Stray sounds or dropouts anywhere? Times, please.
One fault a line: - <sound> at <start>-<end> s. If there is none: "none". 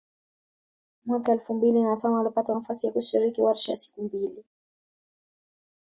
none